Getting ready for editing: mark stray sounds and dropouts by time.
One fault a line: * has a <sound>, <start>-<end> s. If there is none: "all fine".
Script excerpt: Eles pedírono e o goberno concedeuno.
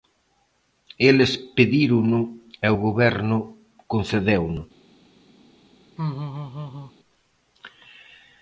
* has a laugh, 6.0-6.9 s